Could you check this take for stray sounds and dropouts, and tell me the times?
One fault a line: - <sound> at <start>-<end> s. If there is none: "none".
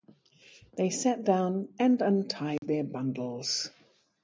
- dropout at 2.6-2.6 s